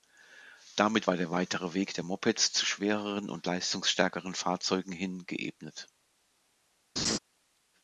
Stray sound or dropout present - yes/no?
yes